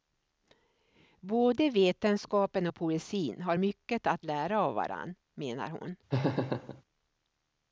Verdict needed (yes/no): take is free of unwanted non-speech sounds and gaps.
no